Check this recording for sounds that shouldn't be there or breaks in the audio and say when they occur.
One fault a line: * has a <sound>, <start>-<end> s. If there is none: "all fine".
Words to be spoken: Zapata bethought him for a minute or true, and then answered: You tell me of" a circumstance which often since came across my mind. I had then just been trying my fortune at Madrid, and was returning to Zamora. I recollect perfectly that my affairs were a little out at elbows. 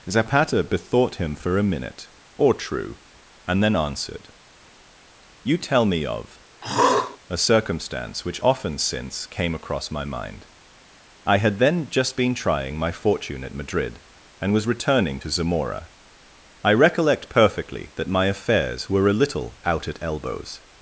* has a throat clearing, 6.6-7.2 s